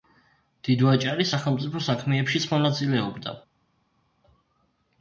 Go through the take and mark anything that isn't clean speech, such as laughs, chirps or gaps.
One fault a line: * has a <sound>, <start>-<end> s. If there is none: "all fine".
all fine